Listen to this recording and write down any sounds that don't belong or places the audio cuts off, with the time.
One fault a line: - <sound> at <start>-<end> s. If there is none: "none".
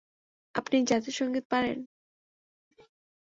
none